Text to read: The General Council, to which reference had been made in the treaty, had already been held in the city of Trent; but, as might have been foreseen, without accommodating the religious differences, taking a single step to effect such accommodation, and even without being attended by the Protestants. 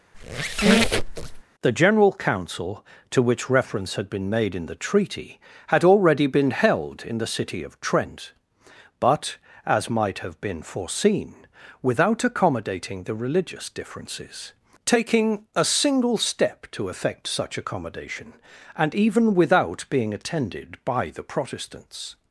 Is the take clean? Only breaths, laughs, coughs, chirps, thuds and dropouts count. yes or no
no